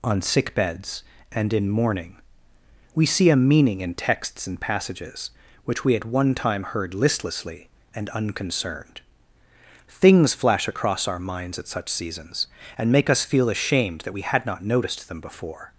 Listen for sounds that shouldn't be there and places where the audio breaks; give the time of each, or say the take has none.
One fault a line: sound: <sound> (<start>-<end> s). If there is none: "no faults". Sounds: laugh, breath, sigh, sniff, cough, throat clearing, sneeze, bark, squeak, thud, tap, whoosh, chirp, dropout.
no faults